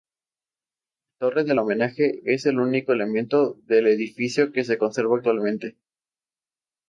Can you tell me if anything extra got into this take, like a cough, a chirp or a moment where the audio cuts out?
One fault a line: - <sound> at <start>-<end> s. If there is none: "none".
none